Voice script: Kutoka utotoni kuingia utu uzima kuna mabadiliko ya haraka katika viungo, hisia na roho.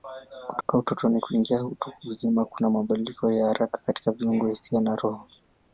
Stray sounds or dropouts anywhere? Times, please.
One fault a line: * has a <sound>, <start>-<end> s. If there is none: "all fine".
* has a dropout, 0.6-0.7 s